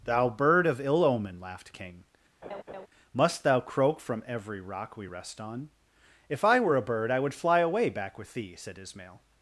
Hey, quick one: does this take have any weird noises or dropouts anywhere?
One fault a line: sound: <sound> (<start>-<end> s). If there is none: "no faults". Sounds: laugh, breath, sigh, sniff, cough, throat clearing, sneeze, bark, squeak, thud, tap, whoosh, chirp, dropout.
sound: laugh (2.4-2.9 s)